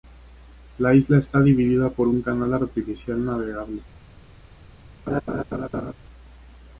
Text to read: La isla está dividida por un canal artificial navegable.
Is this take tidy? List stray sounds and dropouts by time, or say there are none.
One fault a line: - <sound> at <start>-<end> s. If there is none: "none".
- laugh at 5.1-5.9 s